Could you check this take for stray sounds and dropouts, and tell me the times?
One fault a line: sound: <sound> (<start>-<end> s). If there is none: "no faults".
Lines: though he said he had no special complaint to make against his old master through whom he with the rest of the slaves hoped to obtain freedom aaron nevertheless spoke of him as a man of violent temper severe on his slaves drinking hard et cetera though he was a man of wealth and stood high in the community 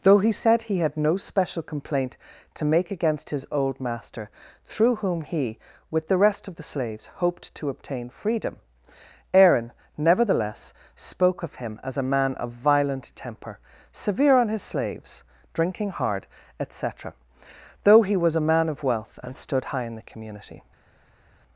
no faults